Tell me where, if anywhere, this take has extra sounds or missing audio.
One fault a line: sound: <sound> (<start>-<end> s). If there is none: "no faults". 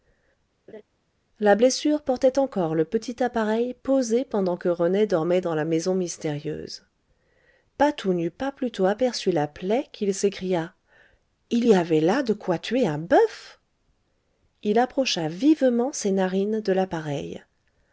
sound: laugh (0.7-0.8 s)